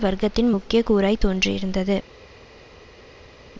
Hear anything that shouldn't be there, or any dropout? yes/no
no